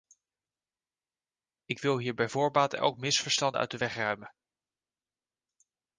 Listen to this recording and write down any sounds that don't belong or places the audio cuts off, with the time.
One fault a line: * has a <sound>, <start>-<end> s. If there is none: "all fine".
all fine